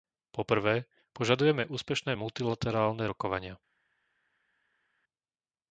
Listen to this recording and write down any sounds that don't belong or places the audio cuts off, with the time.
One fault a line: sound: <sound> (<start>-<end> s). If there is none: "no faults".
no faults